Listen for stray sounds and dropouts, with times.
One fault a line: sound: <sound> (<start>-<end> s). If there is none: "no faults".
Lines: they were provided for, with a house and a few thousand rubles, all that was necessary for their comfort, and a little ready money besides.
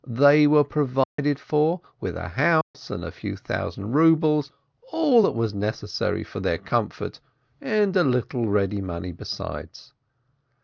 sound: dropout (1.0-1.2 s)
sound: dropout (2.6-2.7 s)